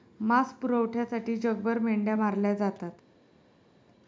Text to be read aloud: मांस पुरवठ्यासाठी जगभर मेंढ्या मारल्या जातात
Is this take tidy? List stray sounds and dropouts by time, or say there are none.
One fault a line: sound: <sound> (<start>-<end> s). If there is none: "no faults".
no faults